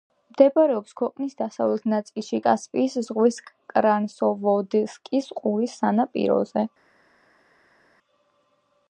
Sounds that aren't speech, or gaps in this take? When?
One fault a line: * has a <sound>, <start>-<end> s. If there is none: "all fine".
all fine